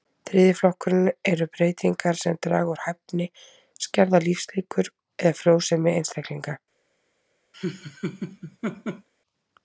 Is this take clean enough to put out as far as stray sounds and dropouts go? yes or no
no